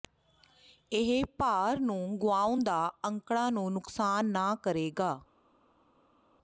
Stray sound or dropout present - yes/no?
no